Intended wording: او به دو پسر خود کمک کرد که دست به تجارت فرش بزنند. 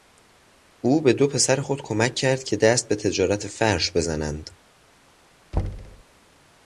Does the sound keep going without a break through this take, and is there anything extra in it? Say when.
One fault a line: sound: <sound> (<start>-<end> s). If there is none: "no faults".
sound: thud (5.5-6.0 s)